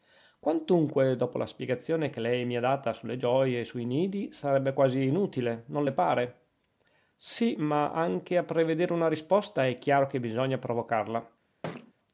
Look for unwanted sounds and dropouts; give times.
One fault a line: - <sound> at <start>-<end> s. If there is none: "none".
- thud at 11.6-11.9 s